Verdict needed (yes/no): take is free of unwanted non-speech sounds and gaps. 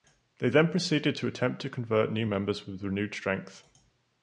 yes